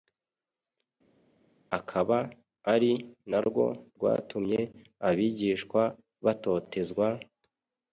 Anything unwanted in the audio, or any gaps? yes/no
no